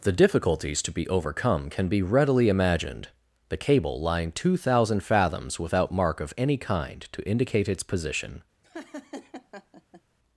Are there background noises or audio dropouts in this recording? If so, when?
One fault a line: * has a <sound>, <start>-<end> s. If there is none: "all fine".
* has a laugh, 8.6-10.0 s